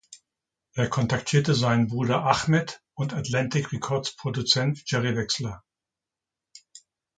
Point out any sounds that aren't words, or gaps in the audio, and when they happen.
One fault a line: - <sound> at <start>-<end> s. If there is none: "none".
none